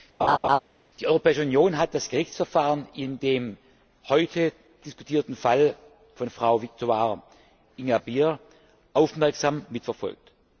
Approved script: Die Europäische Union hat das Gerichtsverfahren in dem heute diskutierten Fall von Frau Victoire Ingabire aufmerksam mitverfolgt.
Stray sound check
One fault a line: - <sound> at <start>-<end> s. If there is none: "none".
- laugh at 0.2-0.6 s